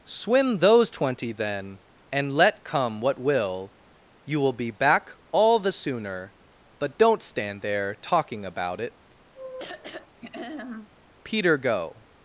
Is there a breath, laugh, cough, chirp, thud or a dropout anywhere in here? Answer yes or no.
yes